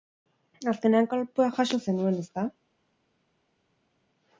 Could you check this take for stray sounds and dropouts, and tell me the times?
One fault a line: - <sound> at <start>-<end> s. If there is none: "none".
none